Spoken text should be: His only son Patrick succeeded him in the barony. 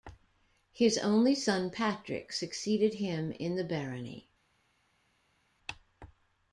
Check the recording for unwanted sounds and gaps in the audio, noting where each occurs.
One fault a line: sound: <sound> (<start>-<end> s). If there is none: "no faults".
no faults